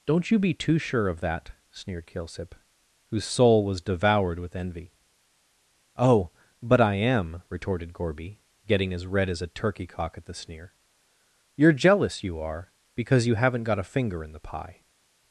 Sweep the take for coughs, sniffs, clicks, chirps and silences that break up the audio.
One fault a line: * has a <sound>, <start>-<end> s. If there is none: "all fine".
all fine